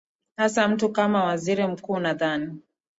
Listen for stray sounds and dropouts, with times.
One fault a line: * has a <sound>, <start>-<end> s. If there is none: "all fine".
all fine